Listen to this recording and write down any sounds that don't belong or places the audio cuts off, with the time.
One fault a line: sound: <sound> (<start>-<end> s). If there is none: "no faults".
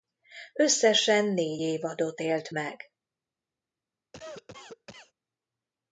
sound: cough (4.1-5.1 s)